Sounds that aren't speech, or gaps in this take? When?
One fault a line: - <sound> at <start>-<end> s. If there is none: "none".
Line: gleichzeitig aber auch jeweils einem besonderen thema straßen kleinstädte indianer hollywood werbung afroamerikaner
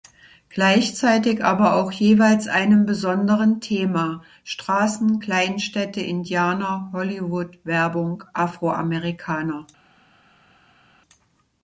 none